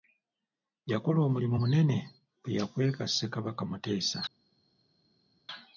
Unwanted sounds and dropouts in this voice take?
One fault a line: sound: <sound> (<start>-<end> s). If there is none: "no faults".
no faults